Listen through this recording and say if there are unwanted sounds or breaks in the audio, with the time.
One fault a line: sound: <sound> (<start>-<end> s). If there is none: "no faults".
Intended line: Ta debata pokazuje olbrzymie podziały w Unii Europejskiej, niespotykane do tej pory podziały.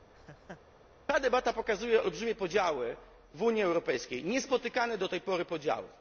sound: laugh (0.1-0.6 s)